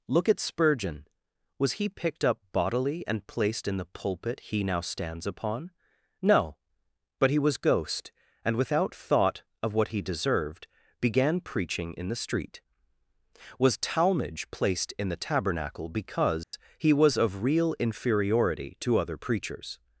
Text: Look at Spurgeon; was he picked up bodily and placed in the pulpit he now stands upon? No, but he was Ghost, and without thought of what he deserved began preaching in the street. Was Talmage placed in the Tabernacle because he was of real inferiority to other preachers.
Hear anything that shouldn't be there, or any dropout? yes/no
yes